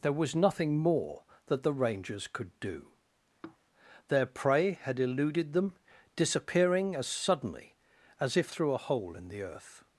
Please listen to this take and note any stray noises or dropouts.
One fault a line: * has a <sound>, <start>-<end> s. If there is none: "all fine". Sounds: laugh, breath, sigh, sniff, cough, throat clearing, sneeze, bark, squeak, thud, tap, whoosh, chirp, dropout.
* has a sigh, 3.4-3.6 s